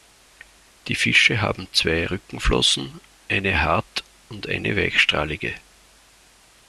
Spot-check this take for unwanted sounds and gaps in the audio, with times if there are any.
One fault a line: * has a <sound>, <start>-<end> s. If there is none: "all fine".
all fine